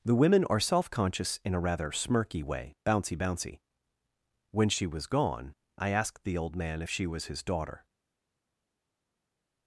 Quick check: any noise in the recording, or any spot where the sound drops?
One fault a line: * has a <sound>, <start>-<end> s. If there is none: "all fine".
all fine